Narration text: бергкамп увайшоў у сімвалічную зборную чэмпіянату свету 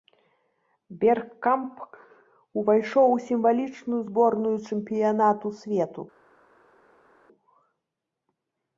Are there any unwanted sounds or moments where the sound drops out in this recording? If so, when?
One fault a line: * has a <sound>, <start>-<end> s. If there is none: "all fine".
all fine